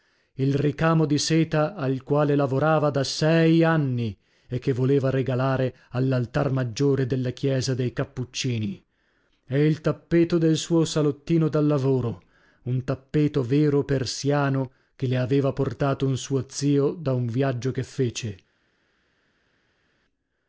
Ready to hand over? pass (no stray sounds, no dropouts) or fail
pass